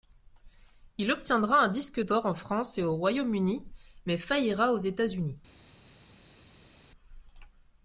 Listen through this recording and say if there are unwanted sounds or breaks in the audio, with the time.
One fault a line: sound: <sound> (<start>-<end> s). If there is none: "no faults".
no faults